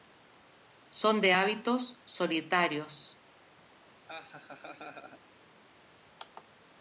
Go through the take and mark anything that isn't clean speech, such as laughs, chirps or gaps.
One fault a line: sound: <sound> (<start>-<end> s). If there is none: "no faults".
sound: laugh (4.1-5.2 s)